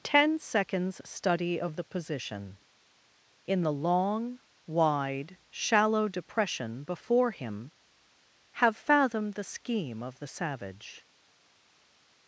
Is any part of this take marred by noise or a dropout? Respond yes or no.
no